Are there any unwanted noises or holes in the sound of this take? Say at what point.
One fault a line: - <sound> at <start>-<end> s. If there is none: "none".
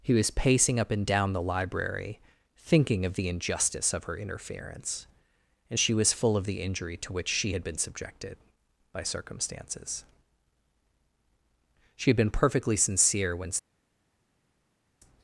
none